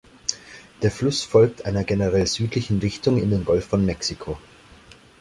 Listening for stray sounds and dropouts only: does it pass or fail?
pass